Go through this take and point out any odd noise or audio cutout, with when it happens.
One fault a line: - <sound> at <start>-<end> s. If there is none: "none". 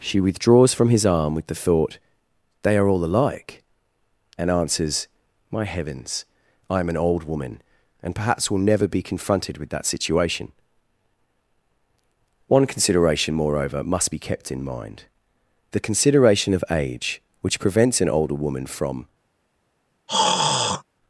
- throat clearing at 20.1-20.8 s